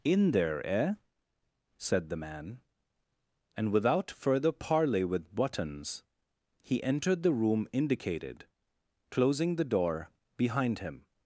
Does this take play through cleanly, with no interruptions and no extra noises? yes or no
yes